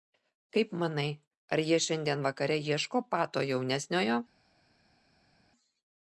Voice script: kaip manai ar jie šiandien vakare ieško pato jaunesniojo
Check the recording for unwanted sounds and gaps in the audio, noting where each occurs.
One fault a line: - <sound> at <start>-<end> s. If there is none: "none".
none